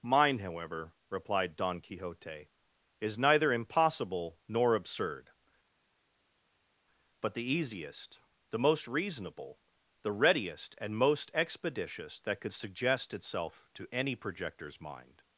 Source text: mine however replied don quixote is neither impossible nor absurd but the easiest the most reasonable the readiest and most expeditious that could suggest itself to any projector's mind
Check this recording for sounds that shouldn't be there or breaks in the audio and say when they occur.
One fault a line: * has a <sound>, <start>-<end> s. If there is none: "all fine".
all fine